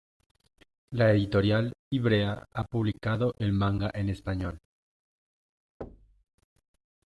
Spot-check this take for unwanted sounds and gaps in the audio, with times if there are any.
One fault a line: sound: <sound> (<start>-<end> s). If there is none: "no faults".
sound: thud (5.8-6.2 s)